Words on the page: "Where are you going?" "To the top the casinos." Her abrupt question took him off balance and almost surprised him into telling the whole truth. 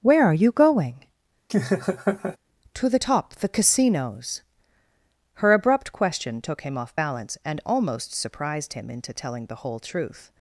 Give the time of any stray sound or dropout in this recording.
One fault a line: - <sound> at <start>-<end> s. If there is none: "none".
- laugh at 1.5-2.4 s